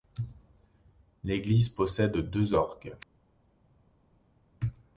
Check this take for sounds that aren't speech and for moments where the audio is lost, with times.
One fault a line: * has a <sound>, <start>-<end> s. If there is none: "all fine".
all fine